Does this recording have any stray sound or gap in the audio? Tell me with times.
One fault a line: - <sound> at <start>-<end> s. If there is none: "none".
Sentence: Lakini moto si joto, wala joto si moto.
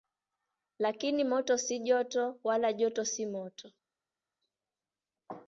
none